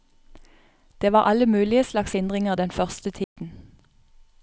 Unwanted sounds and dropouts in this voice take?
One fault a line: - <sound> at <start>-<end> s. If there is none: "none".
- dropout at 3.2-3.4 s